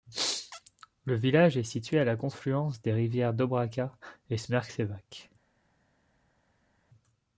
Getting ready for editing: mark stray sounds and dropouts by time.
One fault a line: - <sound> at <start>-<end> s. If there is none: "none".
none